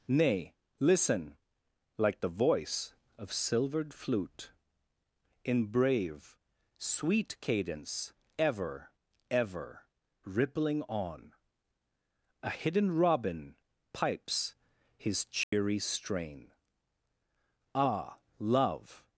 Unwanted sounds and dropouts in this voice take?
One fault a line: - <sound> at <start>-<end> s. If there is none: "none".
- dropout at 15.4-15.5 s